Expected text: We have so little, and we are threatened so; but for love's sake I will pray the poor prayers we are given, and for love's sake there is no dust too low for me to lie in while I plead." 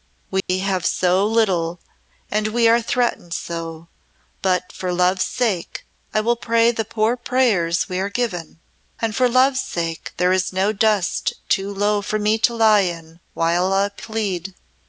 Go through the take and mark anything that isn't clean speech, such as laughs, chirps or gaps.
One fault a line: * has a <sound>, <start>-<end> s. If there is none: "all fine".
* has a dropout, 0.4-0.5 s